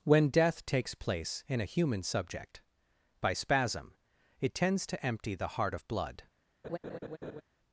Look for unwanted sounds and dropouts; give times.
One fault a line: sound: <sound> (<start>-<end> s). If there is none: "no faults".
sound: laugh (6.6-7.4 s)